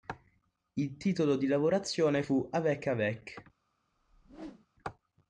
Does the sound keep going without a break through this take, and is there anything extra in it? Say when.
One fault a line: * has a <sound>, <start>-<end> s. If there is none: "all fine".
* has a whoosh, 3.9-4.7 s